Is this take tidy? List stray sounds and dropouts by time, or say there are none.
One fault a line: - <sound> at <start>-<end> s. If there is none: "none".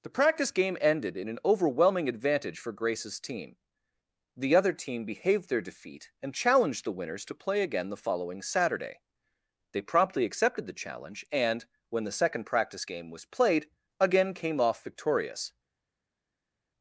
none